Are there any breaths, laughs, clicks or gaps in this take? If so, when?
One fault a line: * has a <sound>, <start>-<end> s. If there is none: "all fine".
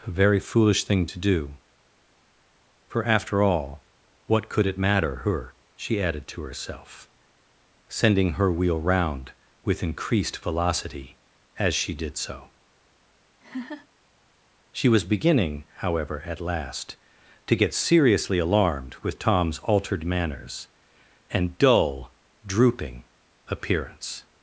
* has a laugh, 13.4-13.9 s